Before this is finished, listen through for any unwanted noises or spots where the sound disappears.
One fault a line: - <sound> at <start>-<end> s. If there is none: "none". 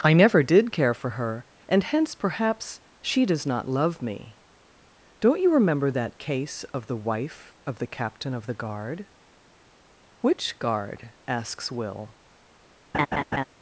- laugh at 12.9-13.4 s